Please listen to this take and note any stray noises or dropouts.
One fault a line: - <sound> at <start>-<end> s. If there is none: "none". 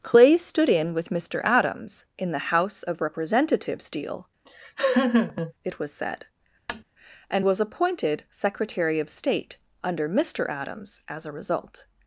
- laugh at 4.5-5.5 s
- tap at 6.7-6.8 s